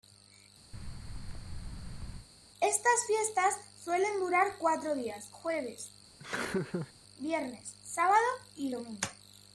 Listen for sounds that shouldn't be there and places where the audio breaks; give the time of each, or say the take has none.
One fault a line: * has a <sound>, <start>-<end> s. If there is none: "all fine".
* has a thud, 0.7-2.3 s
* has a laugh, 6.2-6.9 s